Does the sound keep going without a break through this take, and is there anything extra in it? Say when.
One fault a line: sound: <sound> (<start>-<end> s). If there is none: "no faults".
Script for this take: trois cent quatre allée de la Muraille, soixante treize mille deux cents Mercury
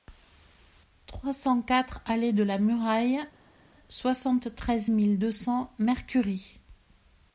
no faults